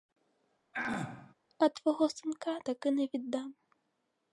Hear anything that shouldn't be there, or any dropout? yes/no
yes